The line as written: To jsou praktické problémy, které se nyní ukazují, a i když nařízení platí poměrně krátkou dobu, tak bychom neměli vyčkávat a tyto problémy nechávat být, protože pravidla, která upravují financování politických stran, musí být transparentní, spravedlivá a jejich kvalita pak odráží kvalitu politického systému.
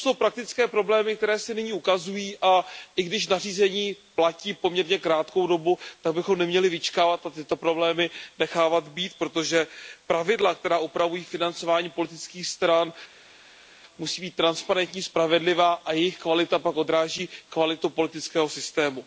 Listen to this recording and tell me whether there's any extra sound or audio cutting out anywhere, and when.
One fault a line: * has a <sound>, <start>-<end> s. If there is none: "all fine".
all fine